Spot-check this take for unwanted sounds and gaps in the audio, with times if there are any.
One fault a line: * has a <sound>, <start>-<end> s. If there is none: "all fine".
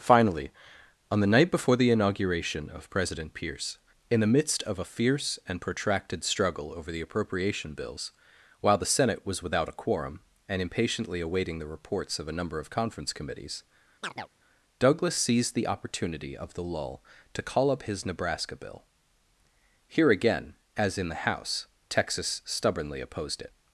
* has a chirp, 14.0-14.3 s